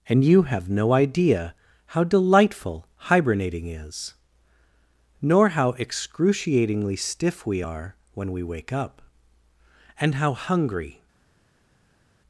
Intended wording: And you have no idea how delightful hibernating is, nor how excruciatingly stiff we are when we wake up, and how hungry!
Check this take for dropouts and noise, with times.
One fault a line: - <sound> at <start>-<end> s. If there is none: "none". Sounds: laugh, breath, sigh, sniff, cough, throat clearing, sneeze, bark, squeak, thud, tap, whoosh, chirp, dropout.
none